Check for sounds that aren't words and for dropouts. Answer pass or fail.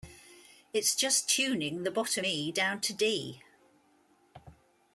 pass